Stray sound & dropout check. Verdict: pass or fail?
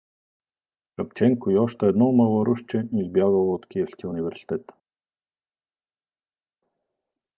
pass